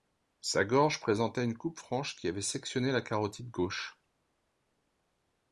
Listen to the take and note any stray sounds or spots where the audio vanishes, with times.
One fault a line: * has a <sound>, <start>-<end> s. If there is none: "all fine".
all fine